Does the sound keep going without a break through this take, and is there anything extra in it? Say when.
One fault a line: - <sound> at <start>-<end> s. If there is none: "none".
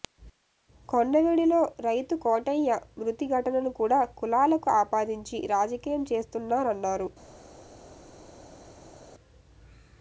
none